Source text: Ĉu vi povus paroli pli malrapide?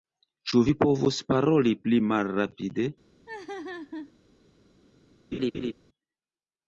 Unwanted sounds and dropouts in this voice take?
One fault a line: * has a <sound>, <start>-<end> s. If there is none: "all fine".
* has a laugh, 3.3-4.1 s
* has a laugh, 5.3-5.7 s